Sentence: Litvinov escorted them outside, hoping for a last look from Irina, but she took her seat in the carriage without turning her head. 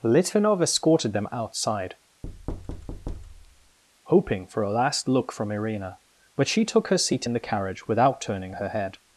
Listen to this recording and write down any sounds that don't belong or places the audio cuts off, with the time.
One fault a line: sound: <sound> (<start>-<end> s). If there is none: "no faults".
sound: thud (2.2-3.8 s)